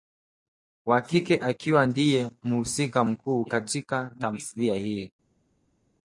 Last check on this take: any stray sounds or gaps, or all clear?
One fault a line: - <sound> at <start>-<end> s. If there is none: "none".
none